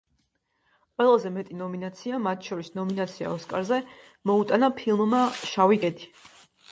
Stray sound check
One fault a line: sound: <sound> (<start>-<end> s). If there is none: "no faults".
no faults